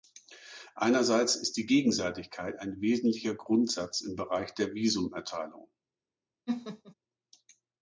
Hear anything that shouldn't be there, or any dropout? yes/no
yes